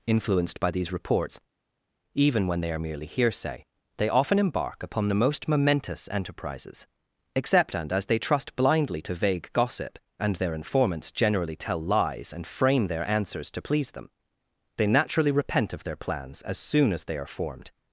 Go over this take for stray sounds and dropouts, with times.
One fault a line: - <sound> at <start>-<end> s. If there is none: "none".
none